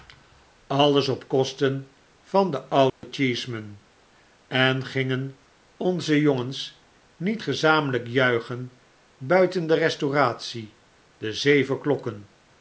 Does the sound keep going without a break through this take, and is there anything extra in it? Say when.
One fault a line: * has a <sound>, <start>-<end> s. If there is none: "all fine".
* has a dropout, 2.9-3.0 s